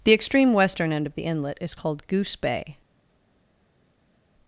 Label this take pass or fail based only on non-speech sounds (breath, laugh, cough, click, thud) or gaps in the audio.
pass